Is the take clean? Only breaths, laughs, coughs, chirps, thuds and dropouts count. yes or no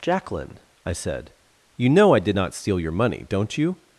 yes